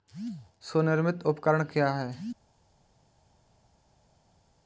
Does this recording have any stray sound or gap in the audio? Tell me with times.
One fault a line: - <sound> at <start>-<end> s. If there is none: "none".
none